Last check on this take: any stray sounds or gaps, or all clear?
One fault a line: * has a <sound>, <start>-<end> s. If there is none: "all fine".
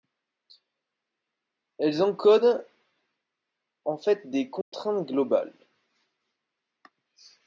* has a dropout, 4.6-4.7 s